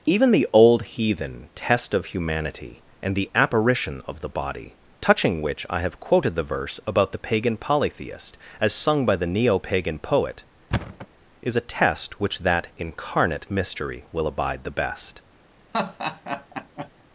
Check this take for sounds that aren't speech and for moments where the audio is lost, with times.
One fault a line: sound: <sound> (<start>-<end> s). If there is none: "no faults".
sound: thud (10.7-11.1 s)
sound: laugh (15.7-16.9 s)